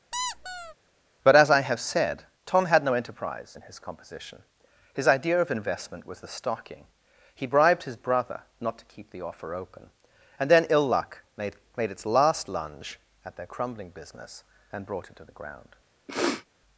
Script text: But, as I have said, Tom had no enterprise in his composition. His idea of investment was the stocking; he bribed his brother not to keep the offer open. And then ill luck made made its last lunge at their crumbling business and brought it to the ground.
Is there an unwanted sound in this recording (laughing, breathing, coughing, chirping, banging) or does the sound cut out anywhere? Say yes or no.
yes